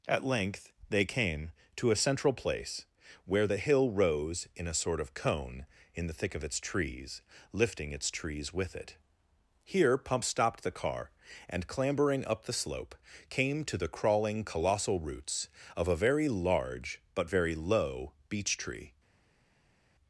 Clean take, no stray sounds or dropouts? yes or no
yes